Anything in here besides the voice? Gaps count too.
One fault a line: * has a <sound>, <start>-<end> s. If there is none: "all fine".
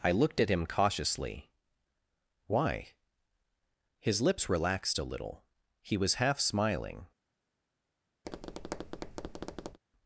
* has a tap, 8.2-9.8 s